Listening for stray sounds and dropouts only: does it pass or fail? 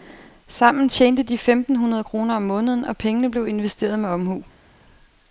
pass